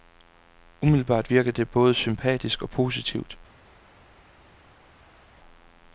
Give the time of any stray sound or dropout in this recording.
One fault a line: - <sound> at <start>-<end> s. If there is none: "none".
none